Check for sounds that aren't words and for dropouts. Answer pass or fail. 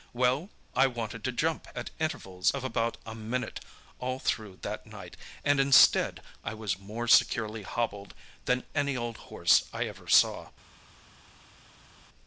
pass